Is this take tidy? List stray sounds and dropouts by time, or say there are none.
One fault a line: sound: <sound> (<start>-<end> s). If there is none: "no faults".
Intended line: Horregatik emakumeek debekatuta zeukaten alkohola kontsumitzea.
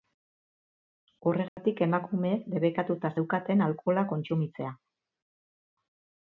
sound: dropout (1.5-1.6 s)